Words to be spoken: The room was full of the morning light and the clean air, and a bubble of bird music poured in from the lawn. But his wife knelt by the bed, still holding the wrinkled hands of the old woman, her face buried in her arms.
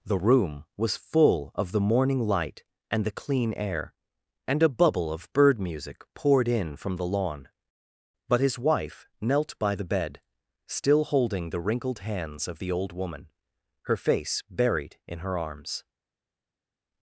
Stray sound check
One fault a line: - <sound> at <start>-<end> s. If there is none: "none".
none